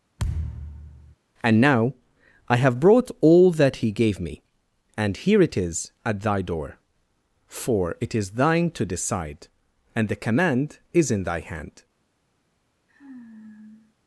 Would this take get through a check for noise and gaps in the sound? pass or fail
fail